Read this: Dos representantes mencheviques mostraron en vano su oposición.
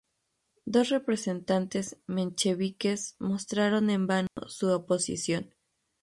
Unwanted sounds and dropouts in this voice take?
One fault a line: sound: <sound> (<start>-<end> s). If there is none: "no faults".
sound: dropout (4.3-4.4 s)